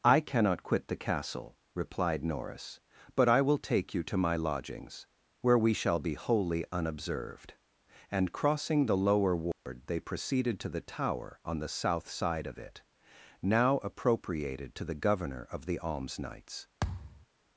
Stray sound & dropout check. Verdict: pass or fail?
fail